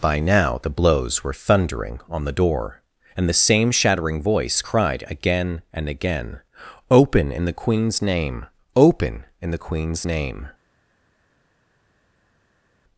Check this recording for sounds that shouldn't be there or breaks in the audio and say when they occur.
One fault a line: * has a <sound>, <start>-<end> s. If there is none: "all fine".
all fine